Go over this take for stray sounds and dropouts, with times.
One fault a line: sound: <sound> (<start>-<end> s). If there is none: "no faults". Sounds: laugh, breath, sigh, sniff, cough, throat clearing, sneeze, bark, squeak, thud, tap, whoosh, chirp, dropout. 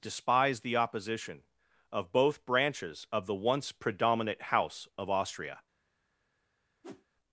sound: whoosh (6.8-7.1 s)